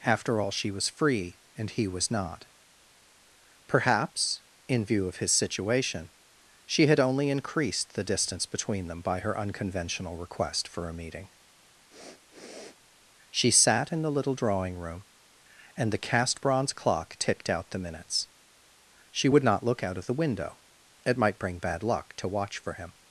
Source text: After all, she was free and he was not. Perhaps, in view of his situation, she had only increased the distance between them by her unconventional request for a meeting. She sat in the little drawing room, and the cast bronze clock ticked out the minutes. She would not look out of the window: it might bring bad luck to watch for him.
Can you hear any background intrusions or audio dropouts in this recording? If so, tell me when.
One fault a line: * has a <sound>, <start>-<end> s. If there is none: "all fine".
* has a sniff, 11.9-12.8 s